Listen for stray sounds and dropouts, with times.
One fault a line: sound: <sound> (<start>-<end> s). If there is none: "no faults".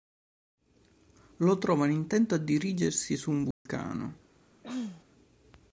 sound: dropout (3.5-3.7 s)
sound: throat clearing (4.6-5.0 s)